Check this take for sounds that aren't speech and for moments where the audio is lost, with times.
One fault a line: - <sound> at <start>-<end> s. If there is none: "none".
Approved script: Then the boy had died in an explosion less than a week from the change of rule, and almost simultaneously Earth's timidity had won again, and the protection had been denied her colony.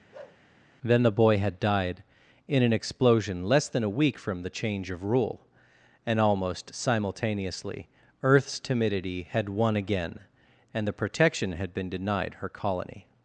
- bark at 0.1-0.4 s